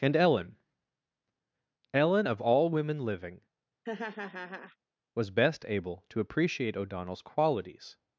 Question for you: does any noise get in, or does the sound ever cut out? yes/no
yes